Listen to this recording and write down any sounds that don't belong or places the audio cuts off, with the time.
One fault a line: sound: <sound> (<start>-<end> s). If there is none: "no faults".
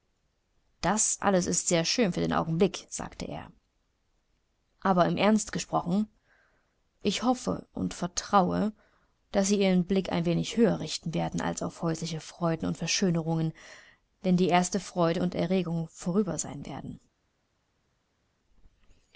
no faults